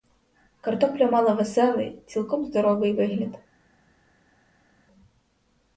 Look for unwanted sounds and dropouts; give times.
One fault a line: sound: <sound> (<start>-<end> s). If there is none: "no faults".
no faults